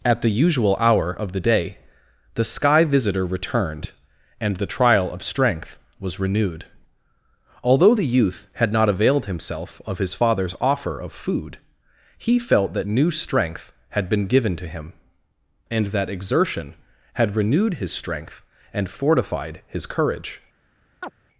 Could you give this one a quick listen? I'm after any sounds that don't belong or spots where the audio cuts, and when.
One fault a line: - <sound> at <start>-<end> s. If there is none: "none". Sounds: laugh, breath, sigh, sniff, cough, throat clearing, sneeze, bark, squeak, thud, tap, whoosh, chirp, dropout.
- chirp at 21.0-21.1 s